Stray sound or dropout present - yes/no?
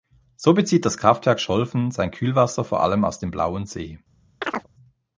yes